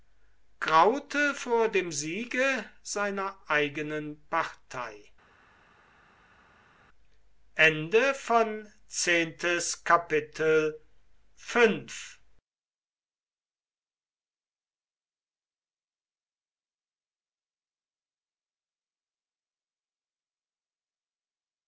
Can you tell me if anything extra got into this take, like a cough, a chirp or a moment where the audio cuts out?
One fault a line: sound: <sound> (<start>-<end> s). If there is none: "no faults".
no faults